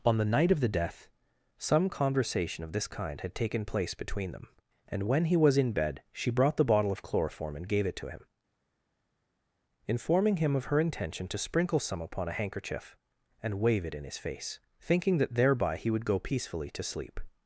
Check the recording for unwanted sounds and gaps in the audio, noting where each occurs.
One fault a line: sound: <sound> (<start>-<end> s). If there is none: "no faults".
no faults